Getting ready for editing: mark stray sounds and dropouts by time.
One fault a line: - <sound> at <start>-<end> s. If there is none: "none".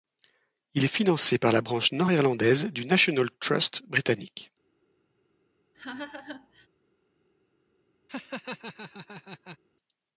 - laugh at 5.7-6.7 s
- laugh at 8.1-9.6 s